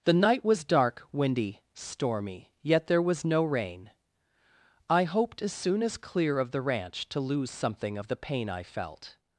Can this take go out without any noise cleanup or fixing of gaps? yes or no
yes